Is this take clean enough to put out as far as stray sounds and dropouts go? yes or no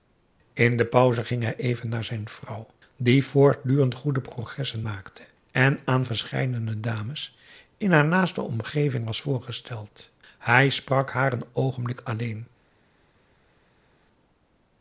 yes